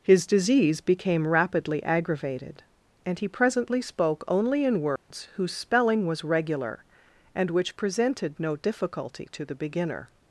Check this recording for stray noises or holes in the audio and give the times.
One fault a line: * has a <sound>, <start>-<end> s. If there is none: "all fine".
* has a dropout, 5.0-5.1 s